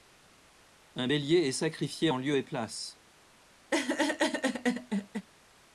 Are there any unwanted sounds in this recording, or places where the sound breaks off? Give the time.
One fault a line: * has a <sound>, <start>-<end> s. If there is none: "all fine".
* has a laugh, 3.7-5.3 s